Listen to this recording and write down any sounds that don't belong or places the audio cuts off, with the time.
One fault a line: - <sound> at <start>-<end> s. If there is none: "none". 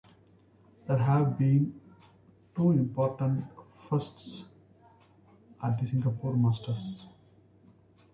none